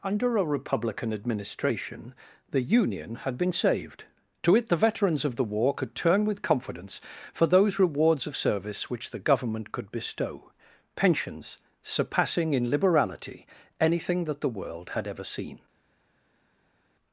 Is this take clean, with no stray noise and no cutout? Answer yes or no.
yes